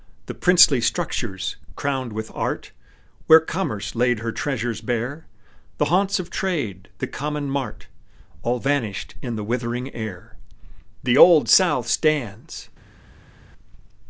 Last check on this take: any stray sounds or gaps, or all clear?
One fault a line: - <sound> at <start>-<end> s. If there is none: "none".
none